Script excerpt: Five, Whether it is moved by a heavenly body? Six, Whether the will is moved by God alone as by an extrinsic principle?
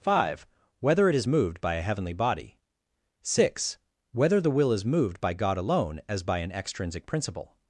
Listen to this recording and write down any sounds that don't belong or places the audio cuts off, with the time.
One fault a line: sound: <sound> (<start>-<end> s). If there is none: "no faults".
no faults